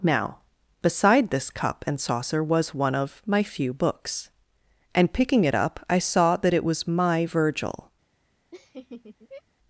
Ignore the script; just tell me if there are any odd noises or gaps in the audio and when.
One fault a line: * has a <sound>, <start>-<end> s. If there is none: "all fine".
* has a laugh, 8.5-9.4 s